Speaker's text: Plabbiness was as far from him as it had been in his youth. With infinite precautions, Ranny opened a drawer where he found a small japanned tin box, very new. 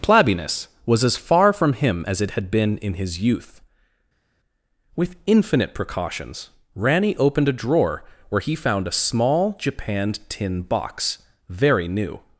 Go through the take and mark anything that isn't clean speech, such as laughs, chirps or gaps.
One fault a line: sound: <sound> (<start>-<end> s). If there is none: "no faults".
no faults